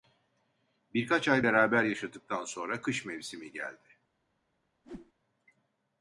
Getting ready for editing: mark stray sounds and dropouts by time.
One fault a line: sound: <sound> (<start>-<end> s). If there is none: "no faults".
sound: whoosh (4.8-5.1 s)